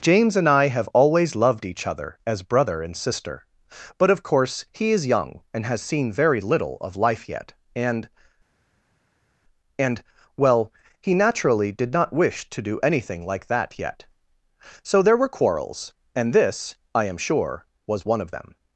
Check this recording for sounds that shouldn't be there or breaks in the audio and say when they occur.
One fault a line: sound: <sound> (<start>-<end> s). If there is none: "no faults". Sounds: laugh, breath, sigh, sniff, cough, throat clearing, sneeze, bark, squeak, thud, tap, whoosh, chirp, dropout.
no faults